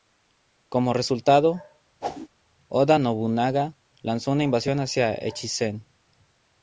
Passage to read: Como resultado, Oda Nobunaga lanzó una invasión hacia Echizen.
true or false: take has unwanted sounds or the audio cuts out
true